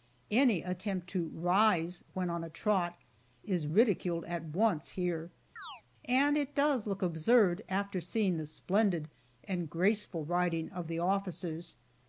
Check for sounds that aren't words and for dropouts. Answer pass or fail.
fail